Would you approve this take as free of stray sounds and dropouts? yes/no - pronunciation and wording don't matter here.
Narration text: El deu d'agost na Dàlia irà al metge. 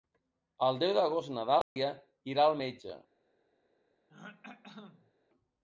no